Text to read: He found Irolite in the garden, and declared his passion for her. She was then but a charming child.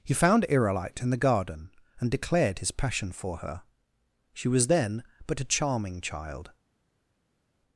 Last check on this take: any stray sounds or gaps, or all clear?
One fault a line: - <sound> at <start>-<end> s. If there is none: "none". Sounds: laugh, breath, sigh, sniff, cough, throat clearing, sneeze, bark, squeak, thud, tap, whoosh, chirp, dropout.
none